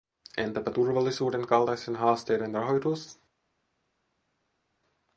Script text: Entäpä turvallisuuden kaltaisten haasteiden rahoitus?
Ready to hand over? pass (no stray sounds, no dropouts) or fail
pass